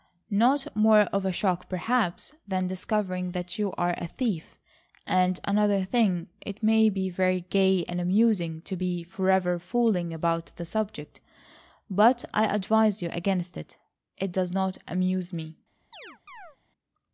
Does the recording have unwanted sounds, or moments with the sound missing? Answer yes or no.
yes